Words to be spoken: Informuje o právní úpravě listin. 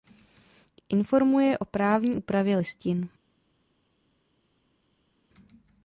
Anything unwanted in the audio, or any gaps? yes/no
no